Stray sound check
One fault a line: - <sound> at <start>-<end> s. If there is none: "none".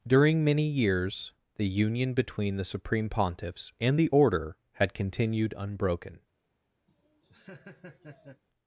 - laugh at 6.9-8.4 s